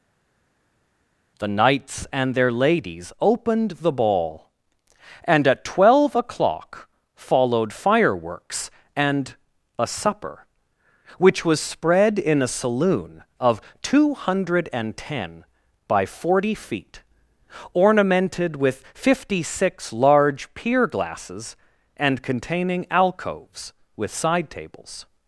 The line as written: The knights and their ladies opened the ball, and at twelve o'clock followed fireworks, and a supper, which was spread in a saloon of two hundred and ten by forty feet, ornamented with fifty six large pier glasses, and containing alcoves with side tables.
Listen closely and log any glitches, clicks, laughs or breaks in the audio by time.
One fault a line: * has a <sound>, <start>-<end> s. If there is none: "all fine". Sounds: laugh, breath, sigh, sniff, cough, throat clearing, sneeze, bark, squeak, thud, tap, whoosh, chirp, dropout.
all fine